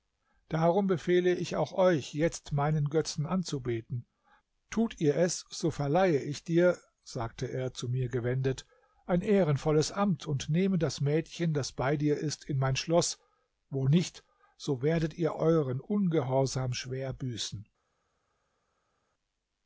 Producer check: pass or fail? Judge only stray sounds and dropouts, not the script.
pass